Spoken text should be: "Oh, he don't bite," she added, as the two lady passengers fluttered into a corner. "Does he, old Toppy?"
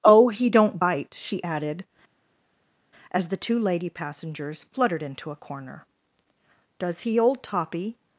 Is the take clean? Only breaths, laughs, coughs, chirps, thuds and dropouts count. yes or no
yes